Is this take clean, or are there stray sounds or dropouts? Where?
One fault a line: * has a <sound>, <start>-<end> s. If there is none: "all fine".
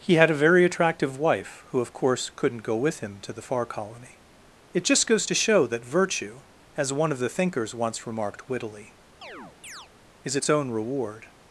* has a chirp, 9.2-9.9 s